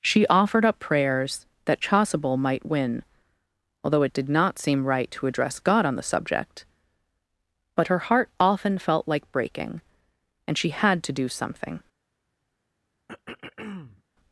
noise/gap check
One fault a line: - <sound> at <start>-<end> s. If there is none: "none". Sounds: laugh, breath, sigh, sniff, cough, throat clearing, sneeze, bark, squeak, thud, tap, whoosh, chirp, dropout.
- throat clearing at 13.1-14.0 s